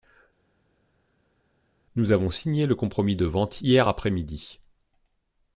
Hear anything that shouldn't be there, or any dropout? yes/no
no